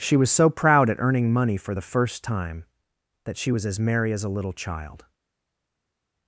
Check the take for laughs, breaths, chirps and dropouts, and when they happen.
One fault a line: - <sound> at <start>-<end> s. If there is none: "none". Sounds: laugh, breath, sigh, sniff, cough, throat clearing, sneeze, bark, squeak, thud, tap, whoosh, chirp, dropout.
none